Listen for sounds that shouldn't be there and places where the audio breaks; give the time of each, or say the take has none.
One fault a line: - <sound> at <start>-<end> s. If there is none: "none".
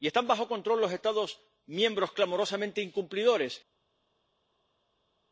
none